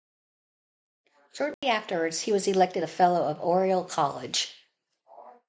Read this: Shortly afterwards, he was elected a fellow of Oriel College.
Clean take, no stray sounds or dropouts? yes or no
no